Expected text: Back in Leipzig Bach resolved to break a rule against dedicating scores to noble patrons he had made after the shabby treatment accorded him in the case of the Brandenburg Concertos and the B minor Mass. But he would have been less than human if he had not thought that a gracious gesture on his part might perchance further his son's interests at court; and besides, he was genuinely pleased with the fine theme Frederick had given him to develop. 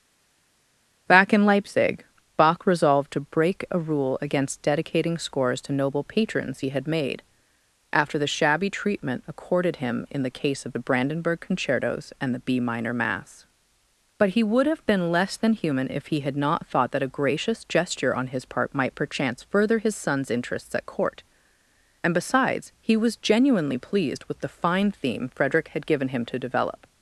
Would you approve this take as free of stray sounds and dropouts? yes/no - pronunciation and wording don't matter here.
yes